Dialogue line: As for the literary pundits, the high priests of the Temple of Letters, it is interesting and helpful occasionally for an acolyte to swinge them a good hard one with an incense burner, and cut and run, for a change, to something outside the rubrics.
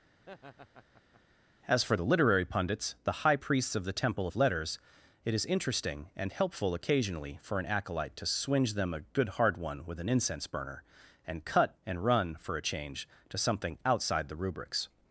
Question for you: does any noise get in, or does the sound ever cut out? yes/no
yes